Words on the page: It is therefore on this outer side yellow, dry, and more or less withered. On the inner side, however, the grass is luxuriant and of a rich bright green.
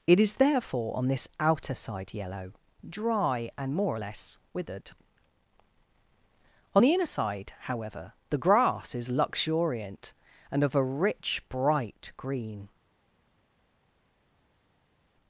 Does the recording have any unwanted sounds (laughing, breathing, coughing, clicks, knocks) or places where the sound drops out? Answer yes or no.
no